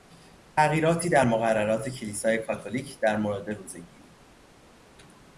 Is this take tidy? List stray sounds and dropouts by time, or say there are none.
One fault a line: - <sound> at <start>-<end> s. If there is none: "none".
none